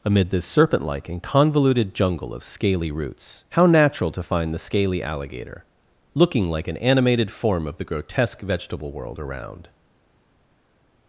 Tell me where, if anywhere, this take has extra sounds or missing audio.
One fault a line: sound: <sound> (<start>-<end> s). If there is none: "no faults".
no faults